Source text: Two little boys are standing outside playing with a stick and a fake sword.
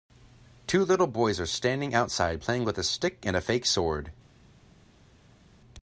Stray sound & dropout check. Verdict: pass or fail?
pass